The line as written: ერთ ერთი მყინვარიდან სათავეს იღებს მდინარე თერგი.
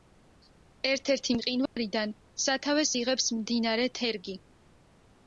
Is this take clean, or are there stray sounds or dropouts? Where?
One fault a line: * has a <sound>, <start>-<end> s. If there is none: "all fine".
* has a dropout, 1.7-1.8 s